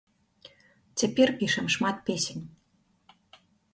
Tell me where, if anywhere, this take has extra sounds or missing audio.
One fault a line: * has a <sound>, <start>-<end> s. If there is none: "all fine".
all fine